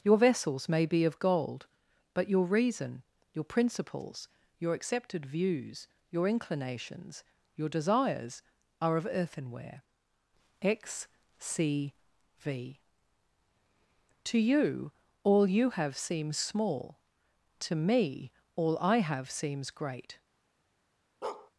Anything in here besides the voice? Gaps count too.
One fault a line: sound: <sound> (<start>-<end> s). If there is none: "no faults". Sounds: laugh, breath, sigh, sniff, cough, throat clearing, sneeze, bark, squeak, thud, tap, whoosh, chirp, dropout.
sound: bark (21.2-21.5 s)